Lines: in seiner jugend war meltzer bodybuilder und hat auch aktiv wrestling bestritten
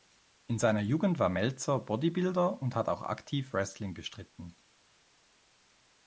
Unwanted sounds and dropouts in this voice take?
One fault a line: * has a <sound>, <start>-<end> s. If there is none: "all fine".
all fine